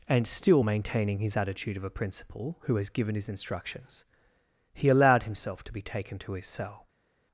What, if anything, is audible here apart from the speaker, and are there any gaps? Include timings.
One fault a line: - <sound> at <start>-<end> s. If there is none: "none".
none